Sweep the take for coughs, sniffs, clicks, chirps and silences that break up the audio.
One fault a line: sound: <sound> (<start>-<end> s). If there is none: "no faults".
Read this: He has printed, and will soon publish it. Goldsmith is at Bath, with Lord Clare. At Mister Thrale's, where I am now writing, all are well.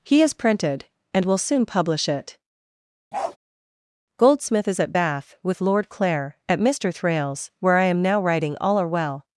sound: bark (3.1-3.4 s)